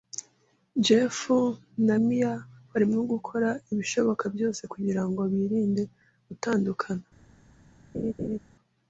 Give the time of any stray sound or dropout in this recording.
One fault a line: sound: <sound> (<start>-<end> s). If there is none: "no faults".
sound: laugh (7.9-8.4 s)